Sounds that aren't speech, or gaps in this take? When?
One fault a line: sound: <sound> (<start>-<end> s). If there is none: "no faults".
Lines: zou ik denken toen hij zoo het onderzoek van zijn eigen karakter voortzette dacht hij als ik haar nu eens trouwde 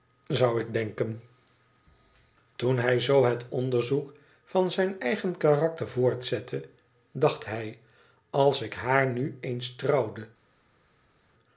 no faults